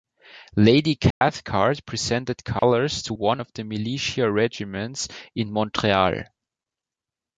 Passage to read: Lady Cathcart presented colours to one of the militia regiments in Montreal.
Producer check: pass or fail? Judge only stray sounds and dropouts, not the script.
fail